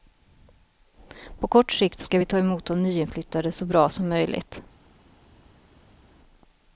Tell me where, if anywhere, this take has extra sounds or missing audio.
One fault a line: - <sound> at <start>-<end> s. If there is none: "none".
none